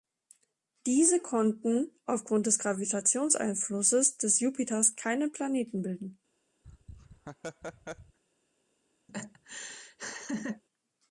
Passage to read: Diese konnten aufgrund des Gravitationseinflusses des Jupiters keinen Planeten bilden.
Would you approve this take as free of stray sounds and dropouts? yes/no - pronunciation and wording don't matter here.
no